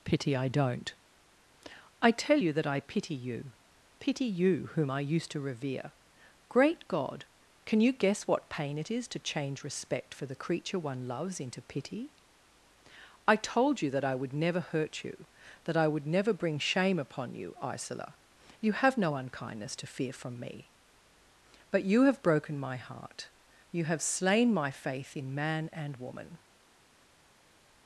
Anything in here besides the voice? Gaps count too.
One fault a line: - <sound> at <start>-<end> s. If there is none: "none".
none